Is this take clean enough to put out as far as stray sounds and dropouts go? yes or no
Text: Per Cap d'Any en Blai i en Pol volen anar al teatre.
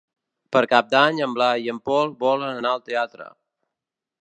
yes